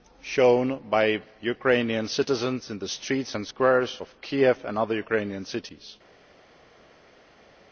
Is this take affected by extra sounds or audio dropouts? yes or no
no